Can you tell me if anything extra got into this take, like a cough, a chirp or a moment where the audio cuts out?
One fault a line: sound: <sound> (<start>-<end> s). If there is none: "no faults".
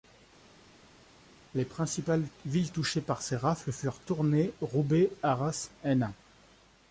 no faults